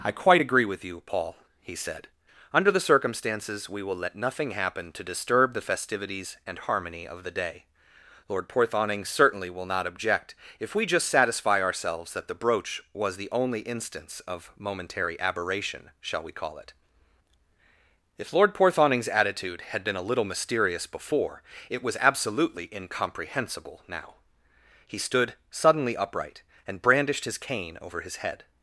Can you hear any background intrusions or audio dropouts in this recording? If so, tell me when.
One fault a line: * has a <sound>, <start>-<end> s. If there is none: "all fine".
all fine